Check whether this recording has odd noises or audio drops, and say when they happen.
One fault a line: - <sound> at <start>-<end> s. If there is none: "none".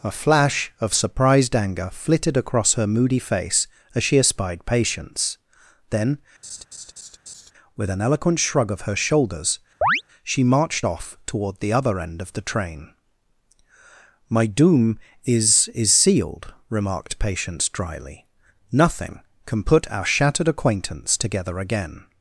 - laugh at 6.4-7.5 s
- chirp at 9.8-10.0 s